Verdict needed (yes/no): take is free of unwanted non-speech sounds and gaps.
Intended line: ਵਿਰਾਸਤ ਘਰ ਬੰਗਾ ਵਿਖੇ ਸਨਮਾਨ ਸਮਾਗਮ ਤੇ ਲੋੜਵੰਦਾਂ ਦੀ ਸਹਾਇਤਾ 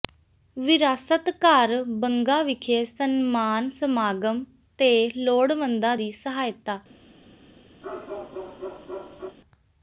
no